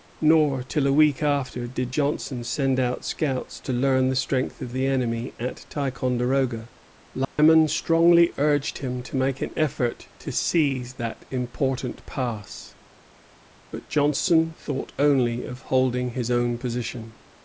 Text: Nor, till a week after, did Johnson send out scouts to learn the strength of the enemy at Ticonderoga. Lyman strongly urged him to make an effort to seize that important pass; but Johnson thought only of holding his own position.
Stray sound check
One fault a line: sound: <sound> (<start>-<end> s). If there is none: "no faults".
sound: dropout (7.2-7.4 s)